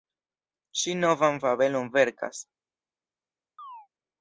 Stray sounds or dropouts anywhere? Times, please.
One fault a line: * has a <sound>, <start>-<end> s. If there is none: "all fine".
* has a chirp, 3.6-3.9 s